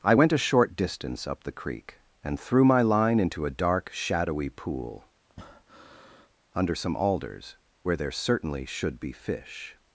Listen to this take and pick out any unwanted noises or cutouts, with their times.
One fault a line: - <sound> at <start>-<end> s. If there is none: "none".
- breath at 5.3-6.3 s